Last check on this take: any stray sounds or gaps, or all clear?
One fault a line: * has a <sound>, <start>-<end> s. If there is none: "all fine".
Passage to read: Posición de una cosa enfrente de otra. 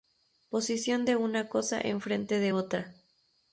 all fine